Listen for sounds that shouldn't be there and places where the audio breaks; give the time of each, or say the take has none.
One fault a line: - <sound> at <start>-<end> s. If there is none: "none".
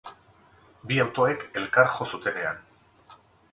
none